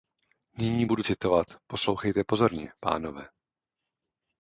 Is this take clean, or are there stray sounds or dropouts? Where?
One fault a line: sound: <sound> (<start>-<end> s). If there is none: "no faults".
no faults